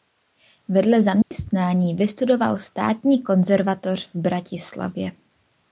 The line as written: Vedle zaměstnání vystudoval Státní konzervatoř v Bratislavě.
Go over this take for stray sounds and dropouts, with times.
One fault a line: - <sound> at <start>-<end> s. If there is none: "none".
- dropout at 1.2-1.3 s